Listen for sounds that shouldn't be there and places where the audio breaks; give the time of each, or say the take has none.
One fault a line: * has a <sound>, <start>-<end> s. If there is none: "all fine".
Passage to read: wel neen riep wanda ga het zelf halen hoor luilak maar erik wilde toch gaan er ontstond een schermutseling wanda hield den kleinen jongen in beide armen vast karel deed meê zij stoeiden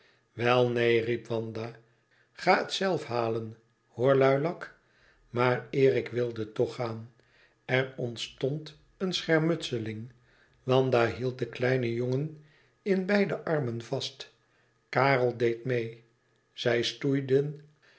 all fine